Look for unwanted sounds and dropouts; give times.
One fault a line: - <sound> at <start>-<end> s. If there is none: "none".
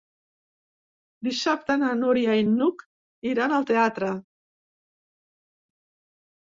none